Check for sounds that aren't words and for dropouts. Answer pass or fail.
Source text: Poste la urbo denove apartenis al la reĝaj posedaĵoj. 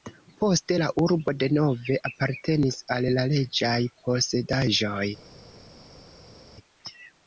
pass